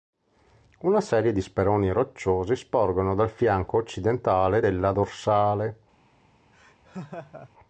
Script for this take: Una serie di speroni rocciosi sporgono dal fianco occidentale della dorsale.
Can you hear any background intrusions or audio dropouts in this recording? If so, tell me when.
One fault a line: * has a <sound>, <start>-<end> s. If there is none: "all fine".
* has a laugh, 6.5-7.5 s